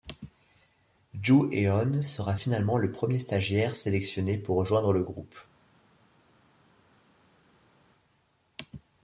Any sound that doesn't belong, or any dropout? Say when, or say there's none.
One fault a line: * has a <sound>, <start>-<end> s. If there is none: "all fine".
all fine